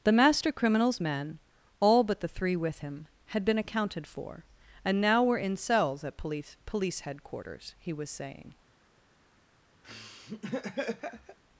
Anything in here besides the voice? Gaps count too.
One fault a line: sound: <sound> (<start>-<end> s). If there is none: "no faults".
sound: laugh (9.8-11.4 s)